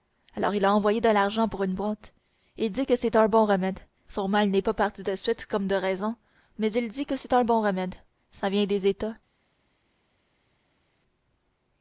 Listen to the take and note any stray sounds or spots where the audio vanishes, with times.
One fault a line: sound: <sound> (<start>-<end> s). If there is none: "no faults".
no faults